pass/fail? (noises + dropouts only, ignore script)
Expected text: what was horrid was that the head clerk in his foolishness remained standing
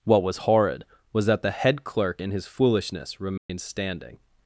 fail